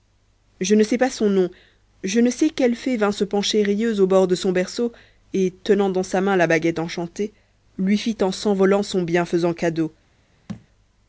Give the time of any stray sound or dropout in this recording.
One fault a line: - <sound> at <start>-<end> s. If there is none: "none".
- thud at 10.5-10.7 s